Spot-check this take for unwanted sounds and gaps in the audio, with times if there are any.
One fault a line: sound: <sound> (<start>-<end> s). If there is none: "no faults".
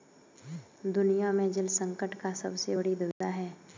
sound: dropout (3.1-3.2 s)